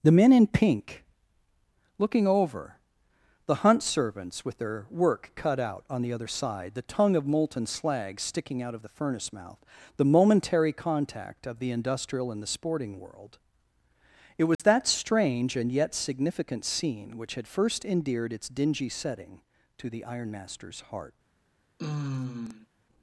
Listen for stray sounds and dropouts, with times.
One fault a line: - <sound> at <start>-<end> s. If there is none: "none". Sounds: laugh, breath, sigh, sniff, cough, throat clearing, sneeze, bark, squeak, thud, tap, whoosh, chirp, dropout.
- dropout at 14.5-14.6 s
- sigh at 21.8-22.7 s